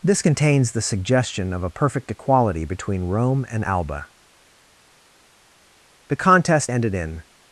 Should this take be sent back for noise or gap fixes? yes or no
no